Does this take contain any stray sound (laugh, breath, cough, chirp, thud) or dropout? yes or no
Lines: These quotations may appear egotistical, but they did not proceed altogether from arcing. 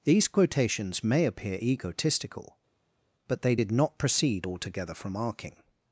no